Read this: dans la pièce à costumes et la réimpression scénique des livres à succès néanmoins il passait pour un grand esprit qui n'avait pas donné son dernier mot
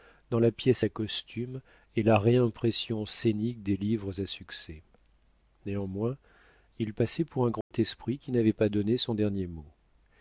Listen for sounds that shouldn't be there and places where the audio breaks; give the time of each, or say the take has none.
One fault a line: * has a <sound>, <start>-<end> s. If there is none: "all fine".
* has a dropout, 7.6-7.7 s